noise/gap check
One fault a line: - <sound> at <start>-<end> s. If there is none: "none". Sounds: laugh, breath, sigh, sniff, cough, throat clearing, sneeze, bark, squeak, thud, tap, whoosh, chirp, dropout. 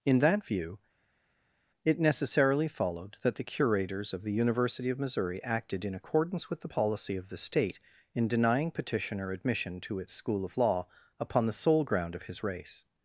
none